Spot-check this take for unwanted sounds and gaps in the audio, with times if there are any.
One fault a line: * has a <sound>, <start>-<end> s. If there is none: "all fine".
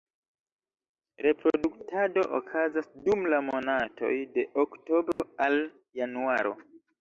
* has a dropout, 5.1-5.2 s